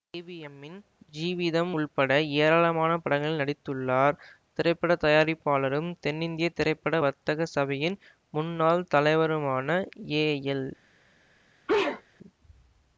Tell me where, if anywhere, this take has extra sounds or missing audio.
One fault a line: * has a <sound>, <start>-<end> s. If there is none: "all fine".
* has a sneeze, 11.7-12.0 s